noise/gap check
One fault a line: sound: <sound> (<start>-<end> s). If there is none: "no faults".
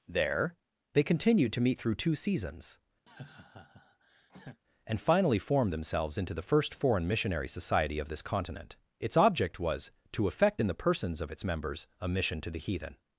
sound: laugh (3.1-4.6 s)